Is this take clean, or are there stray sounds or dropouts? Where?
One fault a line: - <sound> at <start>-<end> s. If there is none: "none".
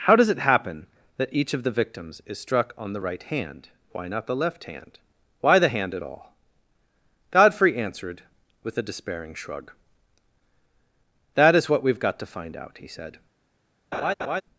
- laugh at 13.9-14.4 s